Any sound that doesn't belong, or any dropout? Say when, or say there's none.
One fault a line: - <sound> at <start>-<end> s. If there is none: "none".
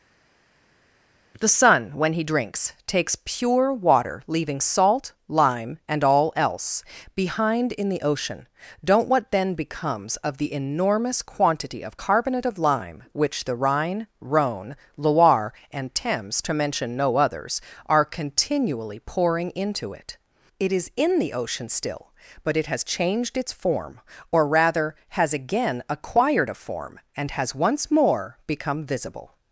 none